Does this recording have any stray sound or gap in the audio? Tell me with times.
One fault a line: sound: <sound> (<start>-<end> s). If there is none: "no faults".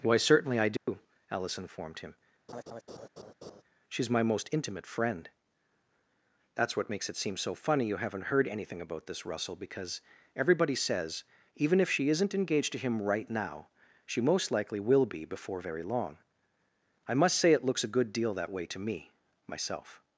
sound: dropout (0.8-0.9 s)
sound: laugh (2.5-3.6 s)